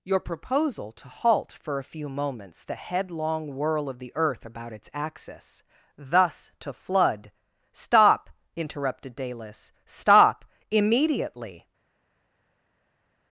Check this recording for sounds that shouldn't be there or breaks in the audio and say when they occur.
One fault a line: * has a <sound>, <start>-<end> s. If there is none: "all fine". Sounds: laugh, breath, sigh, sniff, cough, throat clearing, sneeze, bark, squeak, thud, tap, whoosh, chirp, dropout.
all fine